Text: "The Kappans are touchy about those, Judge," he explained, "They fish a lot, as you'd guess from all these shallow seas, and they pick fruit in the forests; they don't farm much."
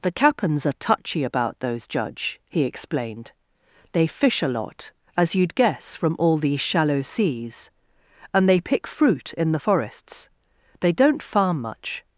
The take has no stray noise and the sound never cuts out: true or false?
true